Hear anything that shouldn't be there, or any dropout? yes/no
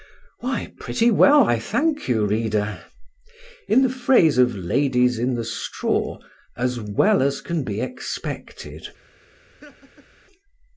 yes